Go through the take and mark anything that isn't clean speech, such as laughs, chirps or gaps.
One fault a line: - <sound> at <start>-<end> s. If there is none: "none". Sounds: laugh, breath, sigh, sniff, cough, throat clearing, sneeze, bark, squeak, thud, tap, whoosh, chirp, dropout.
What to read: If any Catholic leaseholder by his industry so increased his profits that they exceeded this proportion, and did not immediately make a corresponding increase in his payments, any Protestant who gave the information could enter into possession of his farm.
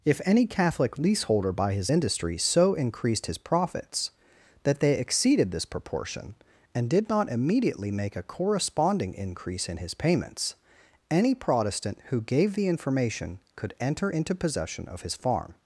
none